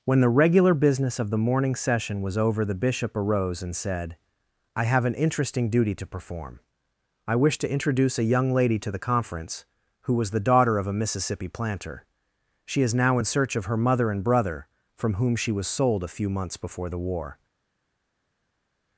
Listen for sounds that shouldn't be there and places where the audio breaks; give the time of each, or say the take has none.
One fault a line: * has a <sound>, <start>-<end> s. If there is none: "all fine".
all fine